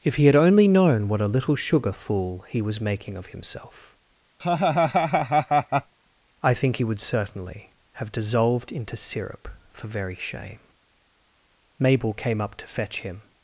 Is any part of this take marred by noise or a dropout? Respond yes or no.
yes